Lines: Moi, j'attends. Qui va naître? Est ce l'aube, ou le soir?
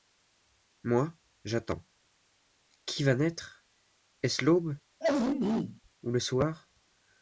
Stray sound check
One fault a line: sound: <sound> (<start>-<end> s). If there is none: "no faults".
sound: throat clearing (5.0-5.8 s)